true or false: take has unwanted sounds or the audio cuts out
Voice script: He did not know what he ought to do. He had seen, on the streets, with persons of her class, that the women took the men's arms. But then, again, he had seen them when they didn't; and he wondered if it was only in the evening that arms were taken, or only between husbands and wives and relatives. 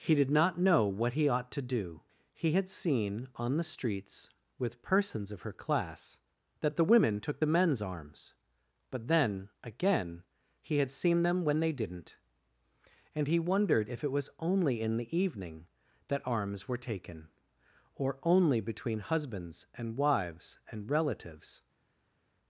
false